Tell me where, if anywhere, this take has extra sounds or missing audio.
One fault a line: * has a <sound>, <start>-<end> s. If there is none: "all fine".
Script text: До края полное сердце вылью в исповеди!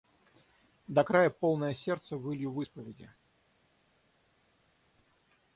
all fine